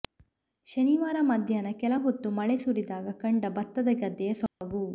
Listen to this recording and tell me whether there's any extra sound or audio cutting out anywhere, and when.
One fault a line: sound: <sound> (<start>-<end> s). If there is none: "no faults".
sound: dropout (4.5-4.6 s)